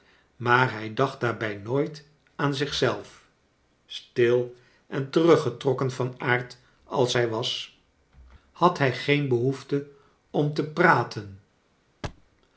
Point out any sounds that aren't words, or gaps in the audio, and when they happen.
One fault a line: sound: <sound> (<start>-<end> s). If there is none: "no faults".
sound: thud (12.0-12.3 s)